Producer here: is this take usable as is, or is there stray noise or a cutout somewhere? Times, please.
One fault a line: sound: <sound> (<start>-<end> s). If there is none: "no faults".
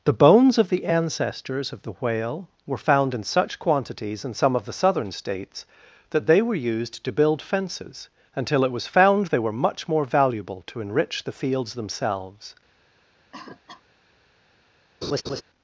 sound: cough (13.3-13.8 s)
sound: laugh (15.0-15.4 s)